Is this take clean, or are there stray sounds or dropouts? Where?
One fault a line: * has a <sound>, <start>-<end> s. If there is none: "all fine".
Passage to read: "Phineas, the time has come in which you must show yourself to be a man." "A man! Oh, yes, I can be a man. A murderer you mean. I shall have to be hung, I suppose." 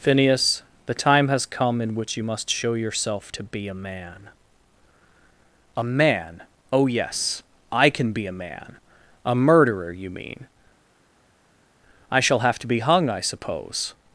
all fine